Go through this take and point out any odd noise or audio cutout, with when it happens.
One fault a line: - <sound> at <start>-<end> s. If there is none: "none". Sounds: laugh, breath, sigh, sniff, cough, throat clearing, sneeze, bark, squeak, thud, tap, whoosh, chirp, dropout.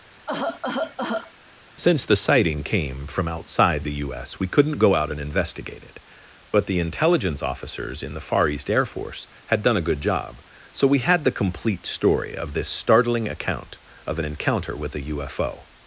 - cough at 0.1-1.3 s